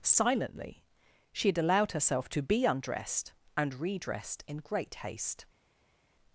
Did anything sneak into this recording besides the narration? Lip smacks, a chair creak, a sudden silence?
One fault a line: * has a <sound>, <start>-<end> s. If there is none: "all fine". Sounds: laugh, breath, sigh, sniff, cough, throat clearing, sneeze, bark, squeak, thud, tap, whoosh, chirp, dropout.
all fine